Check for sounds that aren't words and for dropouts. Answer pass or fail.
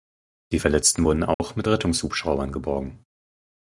fail